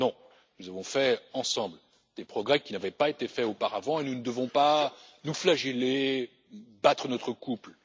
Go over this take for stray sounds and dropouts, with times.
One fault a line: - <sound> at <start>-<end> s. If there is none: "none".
none